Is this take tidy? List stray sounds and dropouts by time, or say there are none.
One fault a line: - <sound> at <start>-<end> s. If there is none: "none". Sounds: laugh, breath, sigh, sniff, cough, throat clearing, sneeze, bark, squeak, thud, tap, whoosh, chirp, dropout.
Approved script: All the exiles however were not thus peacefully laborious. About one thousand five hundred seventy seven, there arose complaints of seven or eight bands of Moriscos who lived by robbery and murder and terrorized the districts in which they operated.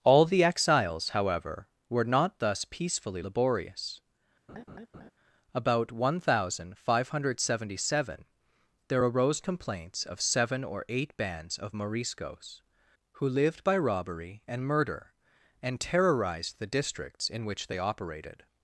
- laugh at 4.5-5.1 s